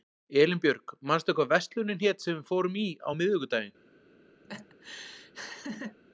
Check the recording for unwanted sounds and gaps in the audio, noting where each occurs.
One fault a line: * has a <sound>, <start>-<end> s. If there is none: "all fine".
* has a laugh, 4.4-6.0 s